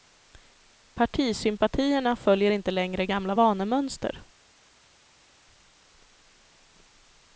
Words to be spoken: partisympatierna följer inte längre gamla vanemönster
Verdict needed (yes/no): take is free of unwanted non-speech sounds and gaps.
yes